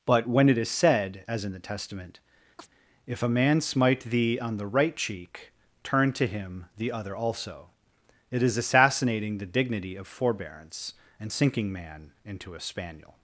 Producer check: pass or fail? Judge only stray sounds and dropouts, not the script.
fail